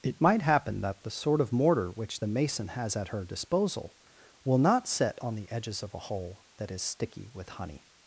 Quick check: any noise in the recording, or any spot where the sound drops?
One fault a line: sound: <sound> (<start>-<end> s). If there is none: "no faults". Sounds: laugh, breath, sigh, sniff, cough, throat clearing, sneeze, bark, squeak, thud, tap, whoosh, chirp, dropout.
no faults